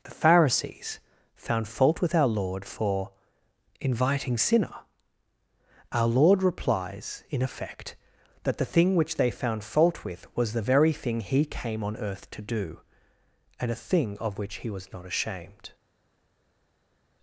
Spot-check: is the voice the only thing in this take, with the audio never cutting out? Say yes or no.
yes